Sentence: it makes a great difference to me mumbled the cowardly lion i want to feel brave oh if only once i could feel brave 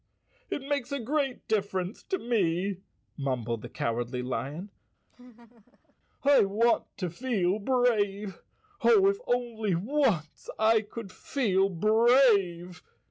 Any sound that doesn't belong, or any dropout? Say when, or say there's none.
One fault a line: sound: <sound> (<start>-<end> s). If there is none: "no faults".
sound: laugh (5.1-6.0 s)